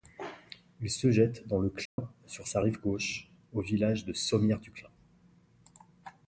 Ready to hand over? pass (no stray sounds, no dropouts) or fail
fail